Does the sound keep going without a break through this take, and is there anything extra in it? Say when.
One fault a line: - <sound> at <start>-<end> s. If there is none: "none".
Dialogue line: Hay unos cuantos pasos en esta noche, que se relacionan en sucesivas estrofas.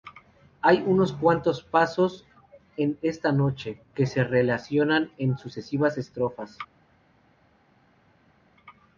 none